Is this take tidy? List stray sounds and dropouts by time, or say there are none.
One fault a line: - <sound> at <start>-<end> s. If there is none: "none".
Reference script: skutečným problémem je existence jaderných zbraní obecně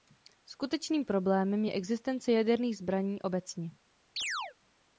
- chirp at 4.2-4.6 s